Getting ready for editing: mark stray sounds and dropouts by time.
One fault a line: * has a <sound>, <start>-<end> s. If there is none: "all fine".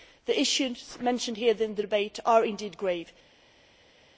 all fine